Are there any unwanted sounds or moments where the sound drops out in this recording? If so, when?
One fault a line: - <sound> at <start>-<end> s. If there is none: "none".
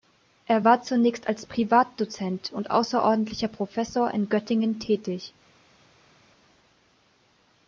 none